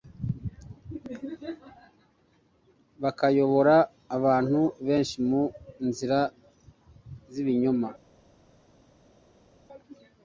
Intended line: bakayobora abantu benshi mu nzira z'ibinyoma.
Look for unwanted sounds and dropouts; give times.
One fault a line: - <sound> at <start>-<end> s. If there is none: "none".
none